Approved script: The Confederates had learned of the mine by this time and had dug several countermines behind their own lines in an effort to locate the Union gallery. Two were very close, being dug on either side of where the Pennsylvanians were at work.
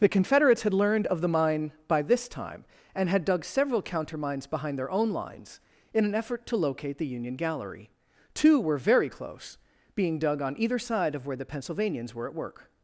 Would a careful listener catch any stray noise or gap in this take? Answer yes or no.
no